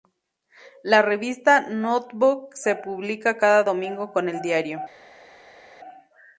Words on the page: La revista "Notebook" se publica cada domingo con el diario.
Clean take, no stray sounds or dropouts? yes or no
yes